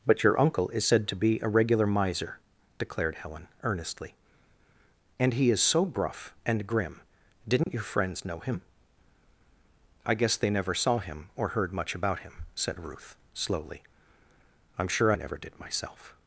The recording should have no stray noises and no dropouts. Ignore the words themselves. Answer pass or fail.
fail